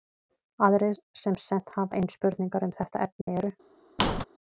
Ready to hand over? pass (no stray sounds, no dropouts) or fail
fail